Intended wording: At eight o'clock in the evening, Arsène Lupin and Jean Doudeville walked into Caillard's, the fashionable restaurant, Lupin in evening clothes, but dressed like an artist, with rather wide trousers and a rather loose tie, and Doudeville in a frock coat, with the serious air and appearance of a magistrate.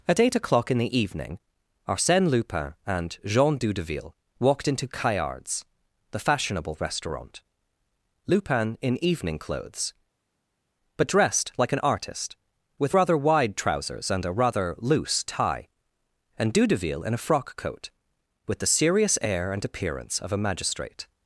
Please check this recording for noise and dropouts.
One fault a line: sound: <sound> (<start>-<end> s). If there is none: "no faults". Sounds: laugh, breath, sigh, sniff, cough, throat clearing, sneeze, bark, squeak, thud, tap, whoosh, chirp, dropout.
no faults